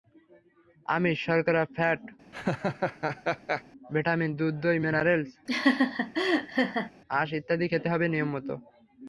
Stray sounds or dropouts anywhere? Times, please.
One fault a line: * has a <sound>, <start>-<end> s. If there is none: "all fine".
* has a laugh, 2.3-3.6 s
* has a laugh, 5.5-6.9 s